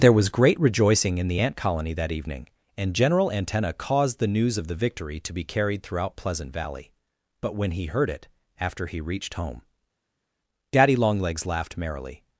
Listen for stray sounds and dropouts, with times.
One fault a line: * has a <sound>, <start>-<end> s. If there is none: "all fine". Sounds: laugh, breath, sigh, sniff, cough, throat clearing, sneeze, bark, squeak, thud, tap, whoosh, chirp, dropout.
all fine